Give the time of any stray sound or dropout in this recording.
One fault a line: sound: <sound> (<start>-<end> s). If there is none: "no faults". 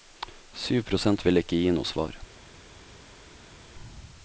no faults